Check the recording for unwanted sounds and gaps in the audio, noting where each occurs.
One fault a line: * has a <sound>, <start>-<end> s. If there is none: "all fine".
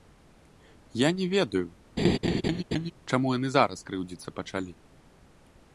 * has a laugh, 2.0-2.9 s